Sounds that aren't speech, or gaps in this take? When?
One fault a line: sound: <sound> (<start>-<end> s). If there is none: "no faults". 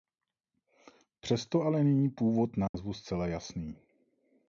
sound: dropout (2.7-2.7 s)